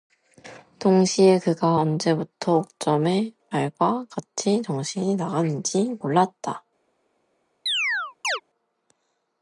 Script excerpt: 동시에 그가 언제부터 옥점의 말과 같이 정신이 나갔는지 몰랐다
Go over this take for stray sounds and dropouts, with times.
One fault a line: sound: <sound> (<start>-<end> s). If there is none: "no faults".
sound: chirp (7.7-8.4 s)